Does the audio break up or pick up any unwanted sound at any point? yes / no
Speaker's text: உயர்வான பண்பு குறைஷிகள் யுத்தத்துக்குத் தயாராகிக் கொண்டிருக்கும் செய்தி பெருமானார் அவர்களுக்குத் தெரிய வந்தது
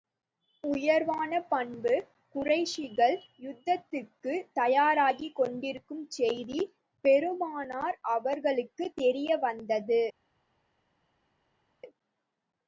no